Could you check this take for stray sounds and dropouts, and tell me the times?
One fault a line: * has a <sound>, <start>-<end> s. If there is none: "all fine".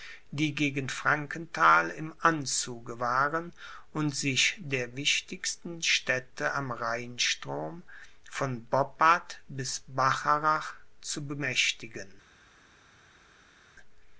all fine